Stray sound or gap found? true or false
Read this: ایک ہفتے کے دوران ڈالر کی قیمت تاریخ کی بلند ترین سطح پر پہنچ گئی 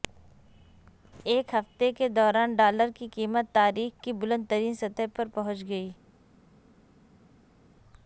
false